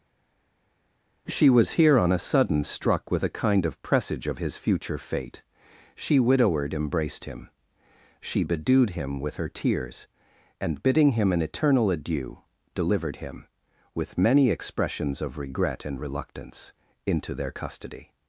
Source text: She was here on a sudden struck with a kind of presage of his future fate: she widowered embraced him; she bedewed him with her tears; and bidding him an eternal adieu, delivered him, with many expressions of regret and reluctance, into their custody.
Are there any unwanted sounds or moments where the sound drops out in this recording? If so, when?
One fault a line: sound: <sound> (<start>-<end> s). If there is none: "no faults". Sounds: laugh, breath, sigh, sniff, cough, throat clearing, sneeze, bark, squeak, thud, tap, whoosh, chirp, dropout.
no faults